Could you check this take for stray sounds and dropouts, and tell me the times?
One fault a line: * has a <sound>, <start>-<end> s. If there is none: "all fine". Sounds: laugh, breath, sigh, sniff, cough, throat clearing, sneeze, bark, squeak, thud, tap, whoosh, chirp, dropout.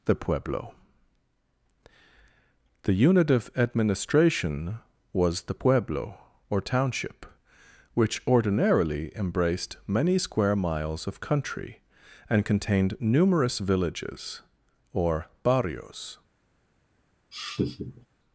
* has a laugh, 17.3-18.1 s